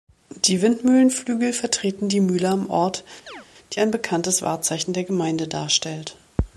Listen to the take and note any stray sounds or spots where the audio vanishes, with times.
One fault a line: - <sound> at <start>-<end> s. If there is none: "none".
- chirp at 3.3-3.5 s